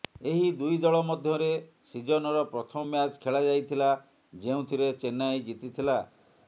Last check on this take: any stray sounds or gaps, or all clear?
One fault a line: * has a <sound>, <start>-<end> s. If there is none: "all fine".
all fine